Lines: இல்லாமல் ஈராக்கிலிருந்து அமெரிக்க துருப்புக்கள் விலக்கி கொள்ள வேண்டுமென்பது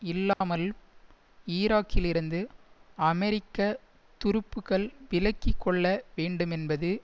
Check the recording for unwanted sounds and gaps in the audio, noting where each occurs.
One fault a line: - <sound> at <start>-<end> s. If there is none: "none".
- dropout at 0.3-0.4 s